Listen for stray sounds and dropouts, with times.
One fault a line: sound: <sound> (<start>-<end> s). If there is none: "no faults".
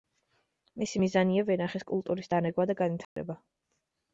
sound: dropout (3.0-3.2 s)